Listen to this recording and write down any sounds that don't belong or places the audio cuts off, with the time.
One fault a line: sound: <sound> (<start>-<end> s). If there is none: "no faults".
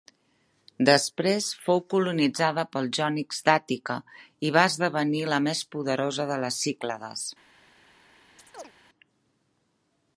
sound: chirp (8.4-8.7 s)